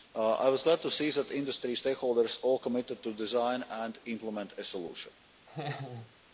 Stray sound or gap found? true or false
true